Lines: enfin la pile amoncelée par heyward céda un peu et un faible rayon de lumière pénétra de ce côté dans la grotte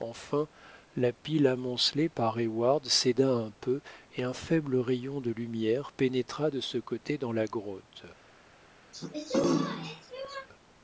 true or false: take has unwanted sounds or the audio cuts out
true